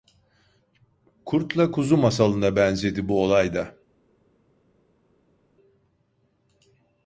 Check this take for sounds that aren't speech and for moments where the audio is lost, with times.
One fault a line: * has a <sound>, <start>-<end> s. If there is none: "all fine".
all fine